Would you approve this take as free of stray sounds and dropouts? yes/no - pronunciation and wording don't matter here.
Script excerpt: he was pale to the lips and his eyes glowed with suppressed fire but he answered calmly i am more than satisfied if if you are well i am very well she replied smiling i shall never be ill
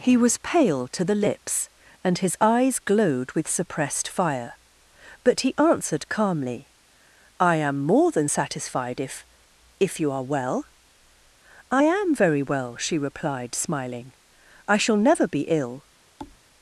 no